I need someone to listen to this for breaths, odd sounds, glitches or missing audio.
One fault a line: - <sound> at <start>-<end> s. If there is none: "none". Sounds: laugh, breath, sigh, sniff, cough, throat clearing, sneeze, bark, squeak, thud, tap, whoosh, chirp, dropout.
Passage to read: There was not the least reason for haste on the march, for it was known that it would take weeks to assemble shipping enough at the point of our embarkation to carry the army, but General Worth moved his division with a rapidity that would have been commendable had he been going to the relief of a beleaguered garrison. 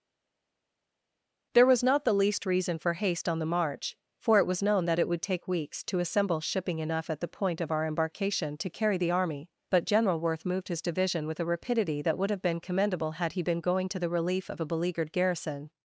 none